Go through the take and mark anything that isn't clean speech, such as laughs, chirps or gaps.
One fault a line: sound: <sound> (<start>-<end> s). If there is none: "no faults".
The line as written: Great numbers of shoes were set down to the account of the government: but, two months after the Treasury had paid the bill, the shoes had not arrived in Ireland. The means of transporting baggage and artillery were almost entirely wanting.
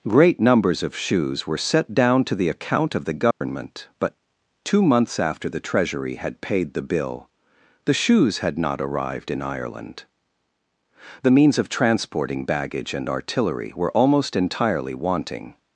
sound: dropout (3.3-3.4 s)